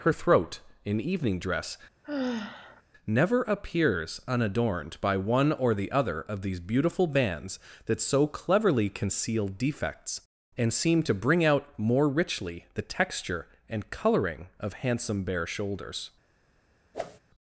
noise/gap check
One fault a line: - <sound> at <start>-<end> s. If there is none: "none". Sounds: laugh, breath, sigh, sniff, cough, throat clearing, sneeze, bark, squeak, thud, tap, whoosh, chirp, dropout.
- sigh at 2.0-2.8 s
- whoosh at 16.9-17.2 s